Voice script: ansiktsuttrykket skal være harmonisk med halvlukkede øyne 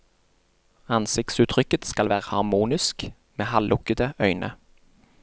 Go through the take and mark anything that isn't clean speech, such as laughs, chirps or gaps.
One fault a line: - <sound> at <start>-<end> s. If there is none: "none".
none